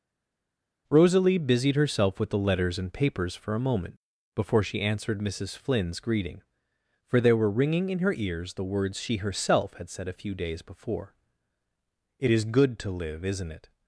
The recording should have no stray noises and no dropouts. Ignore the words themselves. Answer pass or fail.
pass